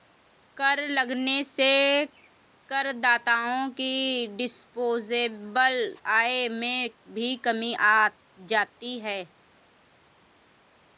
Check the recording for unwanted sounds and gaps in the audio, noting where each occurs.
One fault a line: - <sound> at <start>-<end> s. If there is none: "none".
none